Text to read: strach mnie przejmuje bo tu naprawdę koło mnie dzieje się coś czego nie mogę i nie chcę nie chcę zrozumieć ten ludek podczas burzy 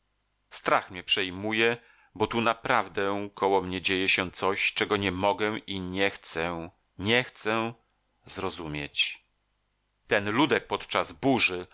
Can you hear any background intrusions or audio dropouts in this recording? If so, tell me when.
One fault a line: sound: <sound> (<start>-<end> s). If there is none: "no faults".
no faults